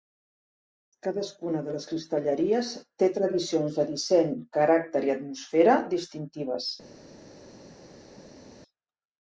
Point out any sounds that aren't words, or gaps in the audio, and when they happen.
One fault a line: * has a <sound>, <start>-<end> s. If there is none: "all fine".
all fine